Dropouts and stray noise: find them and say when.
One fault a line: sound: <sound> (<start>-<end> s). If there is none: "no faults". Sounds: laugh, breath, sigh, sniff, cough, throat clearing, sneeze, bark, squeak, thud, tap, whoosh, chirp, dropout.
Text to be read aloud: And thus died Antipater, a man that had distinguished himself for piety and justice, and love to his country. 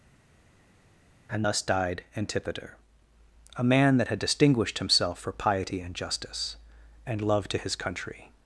no faults